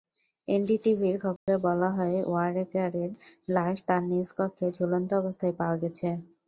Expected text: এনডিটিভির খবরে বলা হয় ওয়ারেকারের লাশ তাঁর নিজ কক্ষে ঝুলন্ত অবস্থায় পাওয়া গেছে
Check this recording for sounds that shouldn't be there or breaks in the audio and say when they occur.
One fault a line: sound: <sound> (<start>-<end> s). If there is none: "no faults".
sound: dropout (1.4-1.5 s)